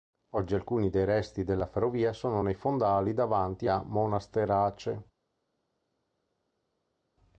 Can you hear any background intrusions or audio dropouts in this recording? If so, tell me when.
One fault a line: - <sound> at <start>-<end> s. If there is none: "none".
none